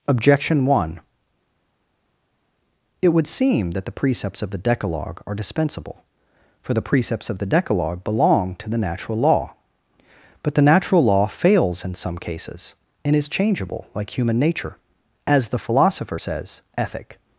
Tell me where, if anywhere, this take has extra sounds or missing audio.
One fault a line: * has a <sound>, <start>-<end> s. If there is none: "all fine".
all fine